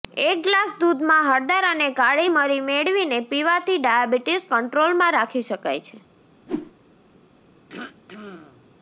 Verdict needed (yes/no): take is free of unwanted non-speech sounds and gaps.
no